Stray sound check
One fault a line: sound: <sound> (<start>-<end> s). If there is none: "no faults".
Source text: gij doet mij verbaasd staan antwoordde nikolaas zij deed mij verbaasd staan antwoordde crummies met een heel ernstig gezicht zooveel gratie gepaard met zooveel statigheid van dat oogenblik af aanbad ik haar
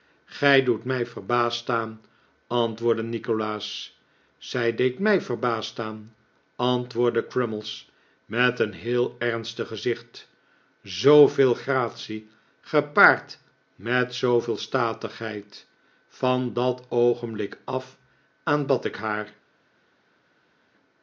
no faults